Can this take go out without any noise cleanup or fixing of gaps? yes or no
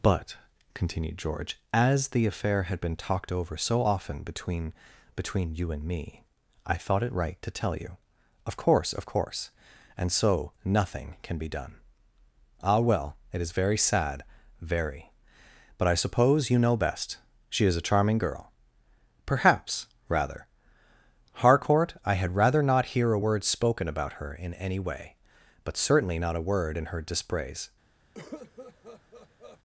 no